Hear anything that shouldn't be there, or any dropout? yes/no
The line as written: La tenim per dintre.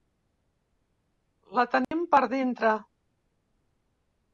yes